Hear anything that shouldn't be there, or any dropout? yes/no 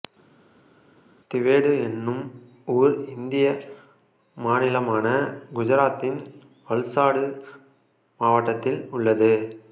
no